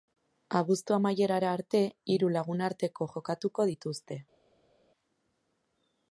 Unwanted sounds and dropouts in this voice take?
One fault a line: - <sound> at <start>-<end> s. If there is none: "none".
none